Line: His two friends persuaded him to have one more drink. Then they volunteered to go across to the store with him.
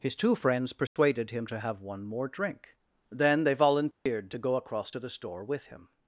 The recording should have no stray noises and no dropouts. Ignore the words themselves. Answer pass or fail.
fail